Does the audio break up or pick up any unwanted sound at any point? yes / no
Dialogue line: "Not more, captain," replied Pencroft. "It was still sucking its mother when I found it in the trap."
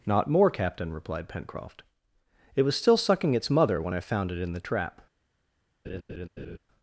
yes